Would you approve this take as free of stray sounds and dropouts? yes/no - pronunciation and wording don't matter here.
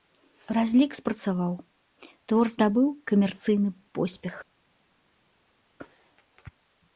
yes